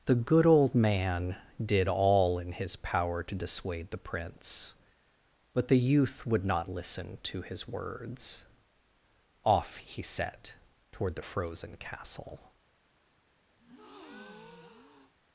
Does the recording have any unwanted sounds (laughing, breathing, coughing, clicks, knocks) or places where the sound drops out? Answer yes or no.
yes